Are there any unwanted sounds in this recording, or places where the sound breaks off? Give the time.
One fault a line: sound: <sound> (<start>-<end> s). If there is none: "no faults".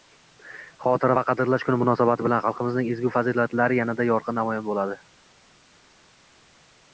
no faults